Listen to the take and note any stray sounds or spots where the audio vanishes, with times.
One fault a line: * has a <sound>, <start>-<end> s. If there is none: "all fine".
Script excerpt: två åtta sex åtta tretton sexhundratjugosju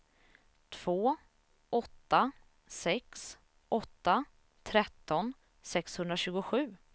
all fine